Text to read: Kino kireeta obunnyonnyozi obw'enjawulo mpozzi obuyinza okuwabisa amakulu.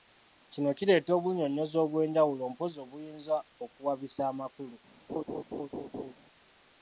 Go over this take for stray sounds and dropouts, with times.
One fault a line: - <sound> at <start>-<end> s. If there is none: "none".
- laugh at 5.1-6.1 s